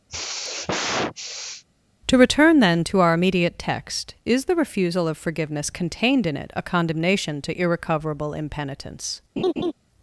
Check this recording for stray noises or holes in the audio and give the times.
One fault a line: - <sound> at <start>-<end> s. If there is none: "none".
- sigh at 0.1-1.6 s
- laugh at 9.4-9.7 s